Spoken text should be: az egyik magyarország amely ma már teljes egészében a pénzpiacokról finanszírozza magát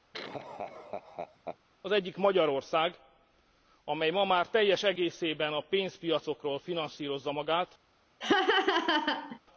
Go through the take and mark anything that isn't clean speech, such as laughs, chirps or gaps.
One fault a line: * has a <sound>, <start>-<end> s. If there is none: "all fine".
* has a laugh, 0.1-1.6 s
* has a laugh, 8.2-9.4 s